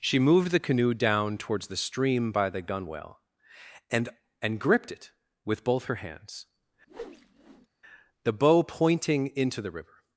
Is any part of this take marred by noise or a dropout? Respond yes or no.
yes